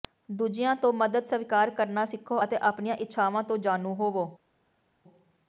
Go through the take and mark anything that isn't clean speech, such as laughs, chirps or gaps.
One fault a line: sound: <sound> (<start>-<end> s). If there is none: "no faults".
no faults